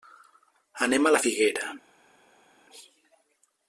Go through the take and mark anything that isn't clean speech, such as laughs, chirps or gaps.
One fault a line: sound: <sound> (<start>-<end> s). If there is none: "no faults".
no faults